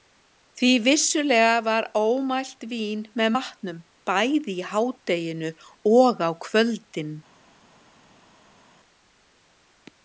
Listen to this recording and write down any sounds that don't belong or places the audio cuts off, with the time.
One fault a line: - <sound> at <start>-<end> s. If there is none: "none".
none